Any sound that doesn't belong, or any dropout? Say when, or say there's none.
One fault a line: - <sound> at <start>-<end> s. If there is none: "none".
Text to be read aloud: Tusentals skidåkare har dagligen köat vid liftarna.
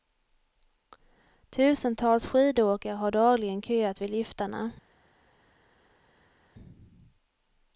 none